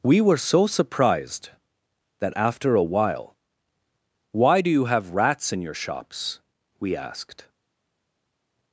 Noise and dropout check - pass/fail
pass